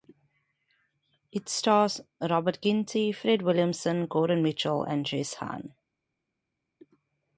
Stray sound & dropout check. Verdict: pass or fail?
pass